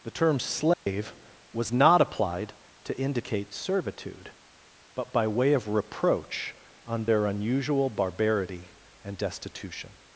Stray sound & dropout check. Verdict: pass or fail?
fail